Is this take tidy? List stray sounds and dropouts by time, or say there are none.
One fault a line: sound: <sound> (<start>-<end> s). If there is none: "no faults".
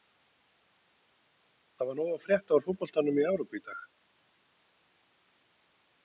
no faults